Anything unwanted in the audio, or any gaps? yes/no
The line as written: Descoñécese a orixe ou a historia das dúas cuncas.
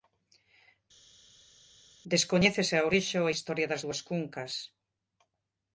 no